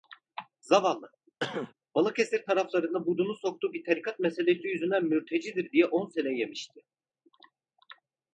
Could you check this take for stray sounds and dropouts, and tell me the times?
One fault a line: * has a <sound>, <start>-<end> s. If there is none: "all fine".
* has a cough, 1.4-1.7 s